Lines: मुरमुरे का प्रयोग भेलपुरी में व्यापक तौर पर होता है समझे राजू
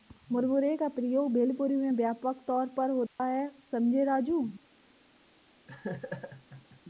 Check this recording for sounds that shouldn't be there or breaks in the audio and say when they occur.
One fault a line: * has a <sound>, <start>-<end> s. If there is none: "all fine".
* has a dropout, 3.1-3.2 s
* has a laugh, 5.7-6.8 s